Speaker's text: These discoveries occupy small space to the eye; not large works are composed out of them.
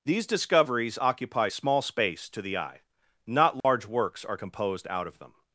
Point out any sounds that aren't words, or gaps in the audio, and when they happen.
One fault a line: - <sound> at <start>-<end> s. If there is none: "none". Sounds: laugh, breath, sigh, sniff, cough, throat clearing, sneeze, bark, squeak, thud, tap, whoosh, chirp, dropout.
- dropout at 3.6-3.6 s